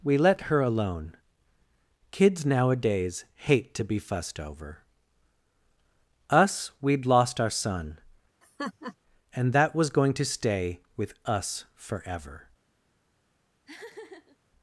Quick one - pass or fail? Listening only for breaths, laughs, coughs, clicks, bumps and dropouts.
fail